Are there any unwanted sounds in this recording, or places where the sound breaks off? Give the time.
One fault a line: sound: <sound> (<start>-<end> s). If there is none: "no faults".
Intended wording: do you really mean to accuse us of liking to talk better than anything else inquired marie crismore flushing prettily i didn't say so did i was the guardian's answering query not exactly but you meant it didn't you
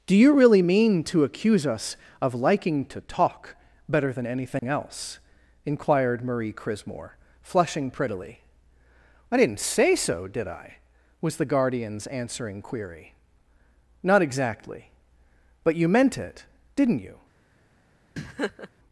sound: dropout (4.6-4.6 s)
sound: laugh (18.2-18.7 s)